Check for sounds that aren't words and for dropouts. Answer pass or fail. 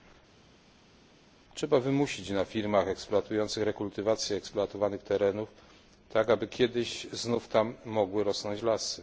pass